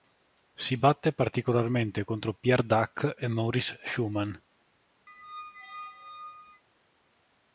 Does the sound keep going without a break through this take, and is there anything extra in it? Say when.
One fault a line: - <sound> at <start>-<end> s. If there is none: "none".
- squeak at 5.1-6.6 s